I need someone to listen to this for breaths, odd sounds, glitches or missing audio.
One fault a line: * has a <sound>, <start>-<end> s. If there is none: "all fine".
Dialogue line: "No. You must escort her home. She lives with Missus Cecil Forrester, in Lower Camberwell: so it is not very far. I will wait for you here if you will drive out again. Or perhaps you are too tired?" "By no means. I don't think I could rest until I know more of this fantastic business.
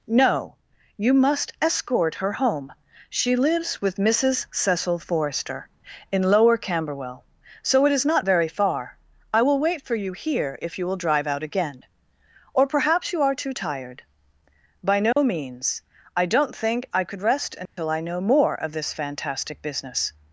* has a dropout, 15.1-15.2 s
* has a dropout, 17.7-17.8 s